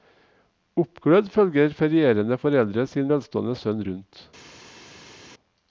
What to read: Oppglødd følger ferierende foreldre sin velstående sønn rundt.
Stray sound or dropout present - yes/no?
no